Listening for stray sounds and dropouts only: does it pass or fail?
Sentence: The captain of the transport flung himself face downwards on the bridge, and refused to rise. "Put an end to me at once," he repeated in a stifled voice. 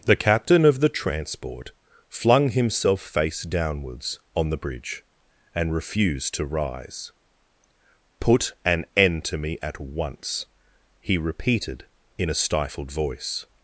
pass